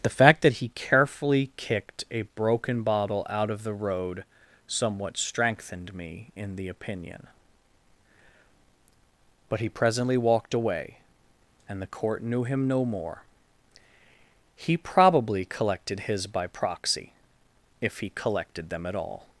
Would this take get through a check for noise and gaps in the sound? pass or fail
pass